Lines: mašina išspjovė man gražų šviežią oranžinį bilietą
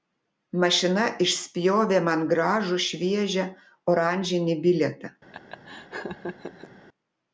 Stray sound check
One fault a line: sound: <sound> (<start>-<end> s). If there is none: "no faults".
sound: laugh (5.3-6.7 s)